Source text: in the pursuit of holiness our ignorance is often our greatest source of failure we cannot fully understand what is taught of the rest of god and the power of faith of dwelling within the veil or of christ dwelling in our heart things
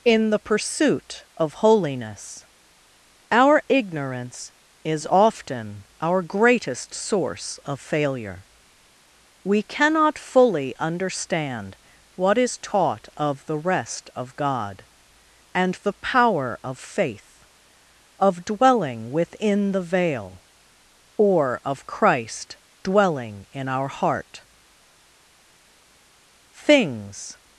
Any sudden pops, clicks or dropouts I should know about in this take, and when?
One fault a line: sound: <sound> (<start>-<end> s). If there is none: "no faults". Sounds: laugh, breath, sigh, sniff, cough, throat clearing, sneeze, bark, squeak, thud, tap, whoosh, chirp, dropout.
no faults